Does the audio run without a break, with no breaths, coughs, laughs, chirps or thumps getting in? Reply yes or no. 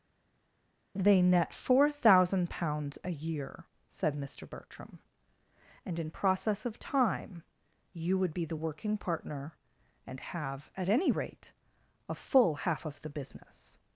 yes